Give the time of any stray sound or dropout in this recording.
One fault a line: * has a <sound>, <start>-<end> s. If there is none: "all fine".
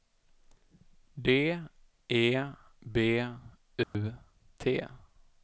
* has a dropout, 3.8-3.9 s